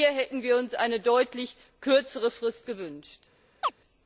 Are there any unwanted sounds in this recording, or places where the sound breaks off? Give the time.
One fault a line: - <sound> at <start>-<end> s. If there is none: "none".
- chirp at 3.6-3.7 s